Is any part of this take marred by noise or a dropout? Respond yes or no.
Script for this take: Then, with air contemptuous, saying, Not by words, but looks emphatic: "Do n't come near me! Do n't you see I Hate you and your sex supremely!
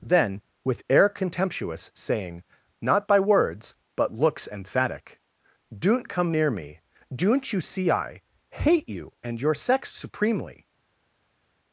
no